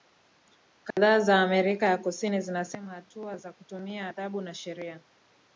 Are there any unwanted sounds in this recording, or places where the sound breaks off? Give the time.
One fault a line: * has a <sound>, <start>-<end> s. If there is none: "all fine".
* has a dropout, 0.9-1.0 s